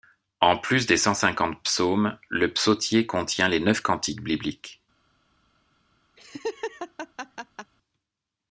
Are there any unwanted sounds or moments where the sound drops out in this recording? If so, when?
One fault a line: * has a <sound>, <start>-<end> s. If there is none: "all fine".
* has a laugh, 6.2-7.7 s